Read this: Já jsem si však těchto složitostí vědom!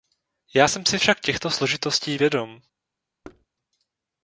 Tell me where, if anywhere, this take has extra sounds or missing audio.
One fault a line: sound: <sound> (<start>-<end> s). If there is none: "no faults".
sound: thud (3.2-3.5 s)